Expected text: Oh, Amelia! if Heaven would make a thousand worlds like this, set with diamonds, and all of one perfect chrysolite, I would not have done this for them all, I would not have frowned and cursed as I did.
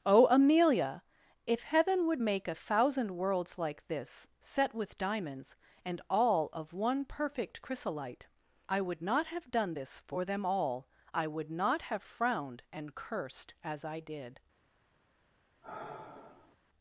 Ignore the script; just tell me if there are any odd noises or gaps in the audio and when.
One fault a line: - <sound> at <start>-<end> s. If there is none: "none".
- sigh at 15.6-16.6 s